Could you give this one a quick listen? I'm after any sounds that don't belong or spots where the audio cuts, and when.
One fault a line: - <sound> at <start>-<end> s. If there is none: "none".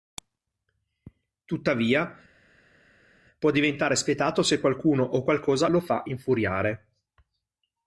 none